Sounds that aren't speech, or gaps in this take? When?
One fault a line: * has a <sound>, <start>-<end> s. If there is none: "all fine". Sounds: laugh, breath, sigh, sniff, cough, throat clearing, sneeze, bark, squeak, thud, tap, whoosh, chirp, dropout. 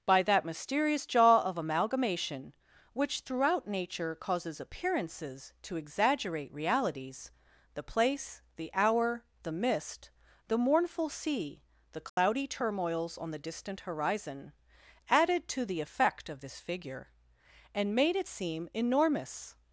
* has a dropout, 12.1-12.2 s